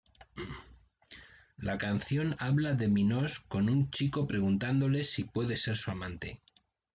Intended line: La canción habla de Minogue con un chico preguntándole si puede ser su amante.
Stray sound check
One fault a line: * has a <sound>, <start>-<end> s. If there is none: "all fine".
all fine